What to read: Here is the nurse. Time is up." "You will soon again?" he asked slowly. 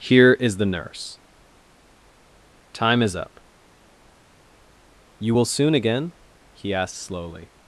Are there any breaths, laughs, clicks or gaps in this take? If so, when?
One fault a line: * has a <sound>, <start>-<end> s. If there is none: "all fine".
all fine